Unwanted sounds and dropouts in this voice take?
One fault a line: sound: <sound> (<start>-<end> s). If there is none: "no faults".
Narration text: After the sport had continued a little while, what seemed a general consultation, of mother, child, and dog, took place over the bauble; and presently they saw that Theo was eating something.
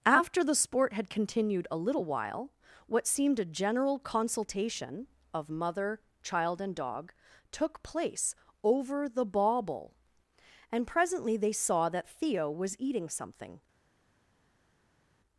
no faults